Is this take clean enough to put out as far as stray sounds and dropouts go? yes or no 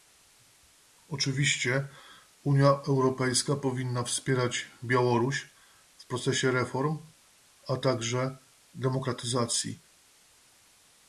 yes